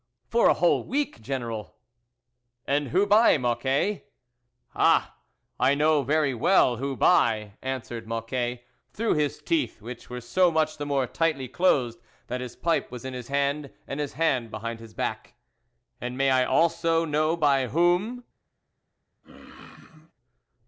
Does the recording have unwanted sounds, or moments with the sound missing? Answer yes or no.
yes